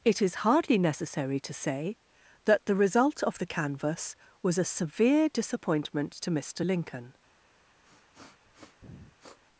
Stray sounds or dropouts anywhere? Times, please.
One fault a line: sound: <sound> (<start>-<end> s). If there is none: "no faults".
sound: sniff (7.8-9.4 s)